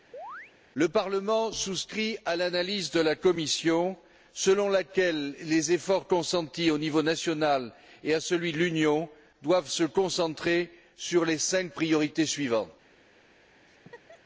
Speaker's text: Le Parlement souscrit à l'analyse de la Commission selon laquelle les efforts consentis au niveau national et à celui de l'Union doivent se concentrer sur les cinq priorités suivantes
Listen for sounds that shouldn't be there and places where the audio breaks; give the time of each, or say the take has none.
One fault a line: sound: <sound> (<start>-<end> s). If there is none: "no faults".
sound: chirp (0.1-0.5 s)
sound: laugh (13.7-14.2 s)